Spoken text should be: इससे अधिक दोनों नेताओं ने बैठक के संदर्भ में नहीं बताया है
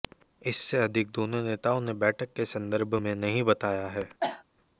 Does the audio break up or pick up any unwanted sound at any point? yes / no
yes